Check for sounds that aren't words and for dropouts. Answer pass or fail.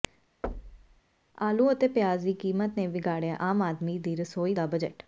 fail